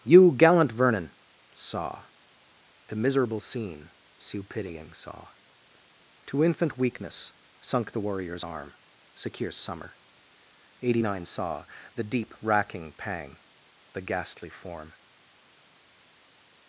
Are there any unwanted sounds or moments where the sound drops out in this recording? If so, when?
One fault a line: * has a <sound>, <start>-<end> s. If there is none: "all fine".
all fine